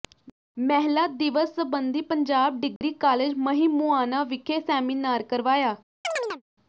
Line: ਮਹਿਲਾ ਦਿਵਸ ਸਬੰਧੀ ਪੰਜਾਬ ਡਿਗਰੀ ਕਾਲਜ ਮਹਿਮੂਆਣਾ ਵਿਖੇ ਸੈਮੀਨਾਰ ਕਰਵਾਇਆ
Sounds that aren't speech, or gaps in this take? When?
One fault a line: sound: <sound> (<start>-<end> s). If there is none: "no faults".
sound: dropout (2.8-2.8 s)
sound: chirp (6.0-6.4 s)